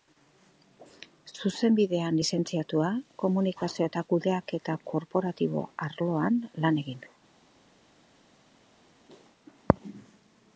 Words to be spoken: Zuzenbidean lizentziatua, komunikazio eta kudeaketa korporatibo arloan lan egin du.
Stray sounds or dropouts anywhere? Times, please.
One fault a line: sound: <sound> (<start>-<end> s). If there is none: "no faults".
no faults